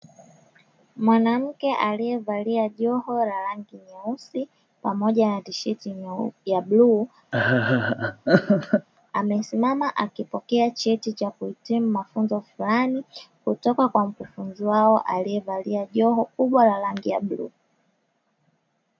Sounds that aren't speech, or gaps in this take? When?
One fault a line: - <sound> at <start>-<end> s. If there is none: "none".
- laugh at 7.3-8.9 s